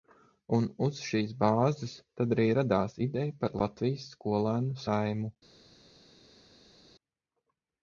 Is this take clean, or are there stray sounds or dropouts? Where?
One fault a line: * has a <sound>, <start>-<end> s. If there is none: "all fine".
all fine